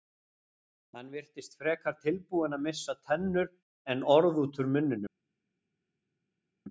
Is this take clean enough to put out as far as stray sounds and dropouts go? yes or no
yes